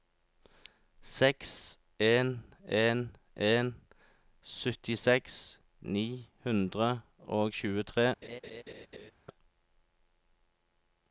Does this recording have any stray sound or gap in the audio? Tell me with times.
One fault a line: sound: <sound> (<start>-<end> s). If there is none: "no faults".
sound: laugh (8.2-9.1 s)